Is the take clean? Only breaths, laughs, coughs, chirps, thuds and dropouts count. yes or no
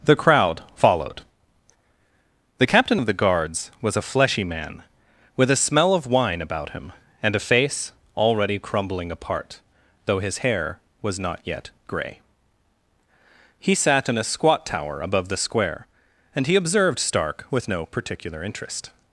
yes